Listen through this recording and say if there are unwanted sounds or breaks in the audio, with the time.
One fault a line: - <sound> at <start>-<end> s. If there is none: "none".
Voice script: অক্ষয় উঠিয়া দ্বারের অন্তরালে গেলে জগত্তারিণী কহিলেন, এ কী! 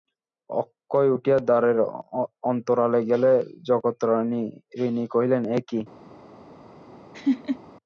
- laugh at 7.1-7.6 s